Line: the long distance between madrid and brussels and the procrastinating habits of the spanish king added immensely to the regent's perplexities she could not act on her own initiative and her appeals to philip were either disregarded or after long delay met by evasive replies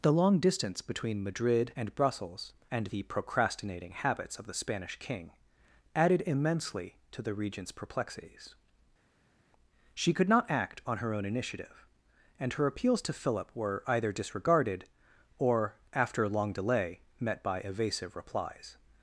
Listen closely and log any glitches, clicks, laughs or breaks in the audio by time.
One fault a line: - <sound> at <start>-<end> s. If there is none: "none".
none